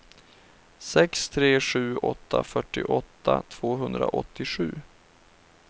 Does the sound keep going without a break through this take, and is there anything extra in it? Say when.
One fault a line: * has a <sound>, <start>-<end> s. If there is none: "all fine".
all fine